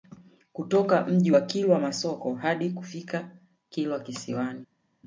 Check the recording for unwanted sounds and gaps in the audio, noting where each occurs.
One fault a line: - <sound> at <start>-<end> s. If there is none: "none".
none